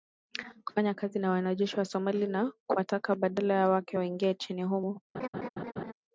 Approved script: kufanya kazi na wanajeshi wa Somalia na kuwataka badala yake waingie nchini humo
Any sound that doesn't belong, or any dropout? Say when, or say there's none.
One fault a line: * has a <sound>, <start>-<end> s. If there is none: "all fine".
* has a laugh, 5.1-5.9 s